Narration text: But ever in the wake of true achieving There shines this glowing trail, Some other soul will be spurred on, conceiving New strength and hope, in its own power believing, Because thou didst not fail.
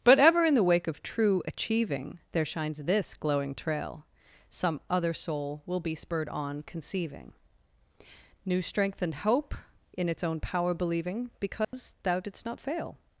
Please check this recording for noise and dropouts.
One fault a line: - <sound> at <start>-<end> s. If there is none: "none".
- dropout at 11.6-11.7 s